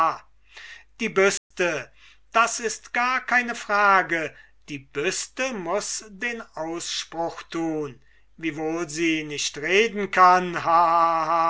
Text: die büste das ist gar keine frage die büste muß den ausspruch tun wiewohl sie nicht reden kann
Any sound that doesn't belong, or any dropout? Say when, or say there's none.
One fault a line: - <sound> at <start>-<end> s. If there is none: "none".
- dropout at 1.4-1.5 s